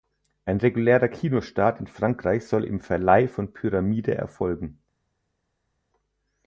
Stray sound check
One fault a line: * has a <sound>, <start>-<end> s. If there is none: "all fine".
all fine